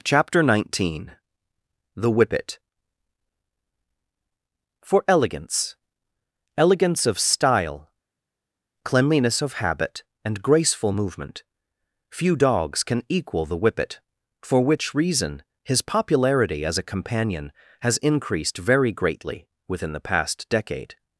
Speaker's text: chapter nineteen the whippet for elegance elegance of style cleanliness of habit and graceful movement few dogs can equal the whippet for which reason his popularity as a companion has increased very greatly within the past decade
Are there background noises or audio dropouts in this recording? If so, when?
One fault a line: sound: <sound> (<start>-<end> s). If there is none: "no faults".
no faults